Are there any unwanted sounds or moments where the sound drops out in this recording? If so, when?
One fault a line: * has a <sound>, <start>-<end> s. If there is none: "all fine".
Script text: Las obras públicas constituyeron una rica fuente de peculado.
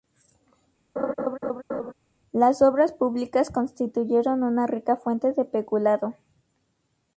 * has a laugh, 1.0-1.9 s